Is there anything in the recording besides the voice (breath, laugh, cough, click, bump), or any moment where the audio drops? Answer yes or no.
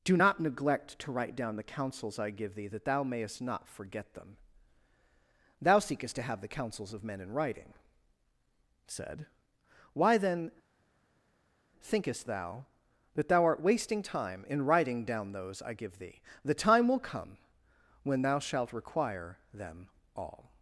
no